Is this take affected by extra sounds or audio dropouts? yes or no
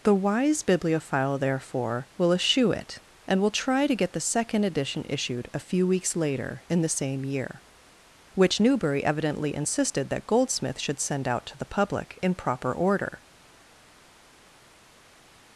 no